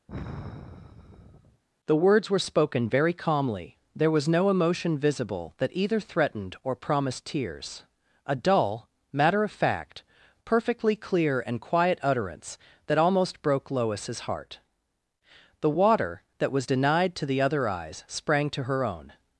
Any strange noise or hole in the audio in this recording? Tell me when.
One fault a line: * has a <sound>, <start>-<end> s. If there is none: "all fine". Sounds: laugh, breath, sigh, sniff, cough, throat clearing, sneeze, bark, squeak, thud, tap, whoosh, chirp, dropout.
* has a sigh, 0.1-1.6 s